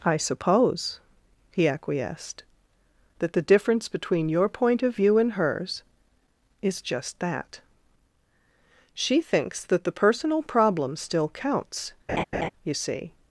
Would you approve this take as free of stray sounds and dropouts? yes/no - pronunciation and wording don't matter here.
no